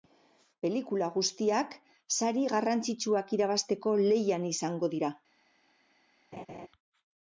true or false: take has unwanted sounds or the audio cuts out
true